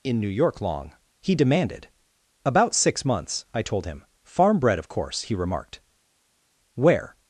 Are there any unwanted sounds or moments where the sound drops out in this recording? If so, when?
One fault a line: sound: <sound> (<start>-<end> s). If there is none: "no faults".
no faults